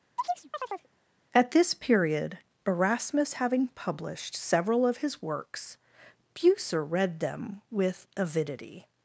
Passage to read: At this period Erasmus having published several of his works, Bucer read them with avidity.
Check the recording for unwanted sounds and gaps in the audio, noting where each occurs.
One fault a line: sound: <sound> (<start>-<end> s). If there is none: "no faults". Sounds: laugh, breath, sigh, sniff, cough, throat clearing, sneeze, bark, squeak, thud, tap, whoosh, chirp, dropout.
sound: chirp (0.2-0.9 s)